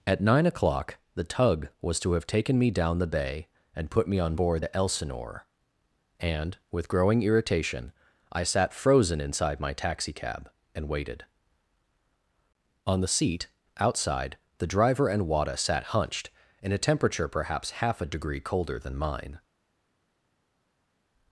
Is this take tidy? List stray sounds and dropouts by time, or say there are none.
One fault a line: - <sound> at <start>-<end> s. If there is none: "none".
none